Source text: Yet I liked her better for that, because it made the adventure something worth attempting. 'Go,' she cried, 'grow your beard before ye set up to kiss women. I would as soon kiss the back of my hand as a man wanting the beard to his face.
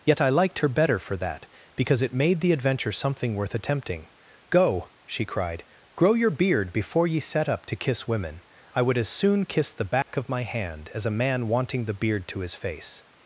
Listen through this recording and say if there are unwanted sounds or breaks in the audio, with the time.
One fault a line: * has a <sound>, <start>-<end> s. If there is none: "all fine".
* has a dropout, 10.0-10.1 s